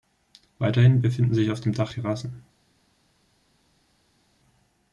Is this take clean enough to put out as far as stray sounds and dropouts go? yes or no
yes